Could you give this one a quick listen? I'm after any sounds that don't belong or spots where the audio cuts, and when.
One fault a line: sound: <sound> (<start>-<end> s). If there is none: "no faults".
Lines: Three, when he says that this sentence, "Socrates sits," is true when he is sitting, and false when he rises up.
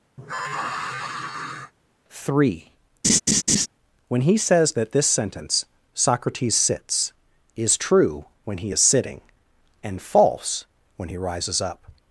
sound: sigh (0.2-1.7 s)
sound: laugh (3.0-3.7 s)